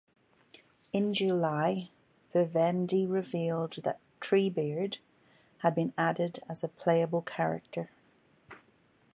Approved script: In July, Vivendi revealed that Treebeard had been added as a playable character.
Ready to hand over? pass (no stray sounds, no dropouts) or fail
pass